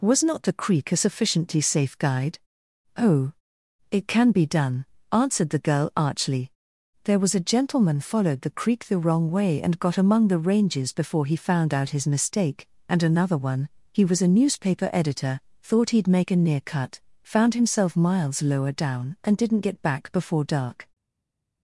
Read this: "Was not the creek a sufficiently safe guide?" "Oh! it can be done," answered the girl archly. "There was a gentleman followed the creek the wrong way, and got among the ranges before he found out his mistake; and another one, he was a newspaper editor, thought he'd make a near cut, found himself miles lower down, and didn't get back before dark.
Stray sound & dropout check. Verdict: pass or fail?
pass